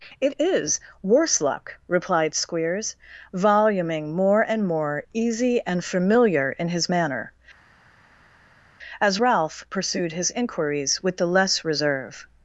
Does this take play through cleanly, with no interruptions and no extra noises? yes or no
yes